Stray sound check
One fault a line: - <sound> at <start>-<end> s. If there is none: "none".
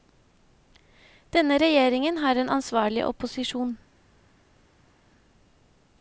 none